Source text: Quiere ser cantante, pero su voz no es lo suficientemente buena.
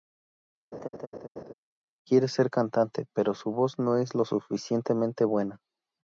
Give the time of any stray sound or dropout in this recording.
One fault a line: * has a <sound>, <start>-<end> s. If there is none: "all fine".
* has a laugh, 0.7-1.5 s